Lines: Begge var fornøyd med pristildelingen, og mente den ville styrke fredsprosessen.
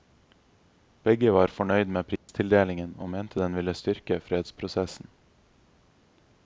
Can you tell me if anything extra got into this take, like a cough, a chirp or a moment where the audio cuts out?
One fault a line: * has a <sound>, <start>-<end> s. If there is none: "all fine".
* has a dropout, 2.2-2.3 s